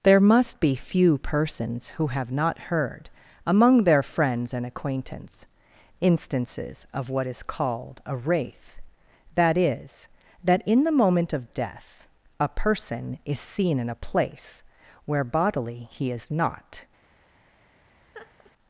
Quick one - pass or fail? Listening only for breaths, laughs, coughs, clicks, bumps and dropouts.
fail